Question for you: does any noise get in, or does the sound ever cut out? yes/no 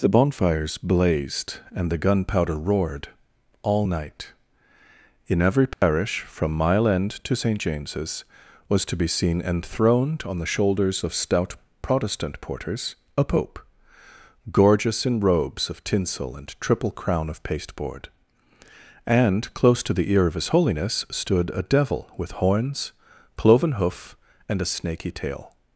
yes